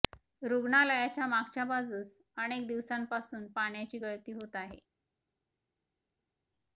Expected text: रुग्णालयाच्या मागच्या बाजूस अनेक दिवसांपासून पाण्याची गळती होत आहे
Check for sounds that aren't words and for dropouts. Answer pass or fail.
pass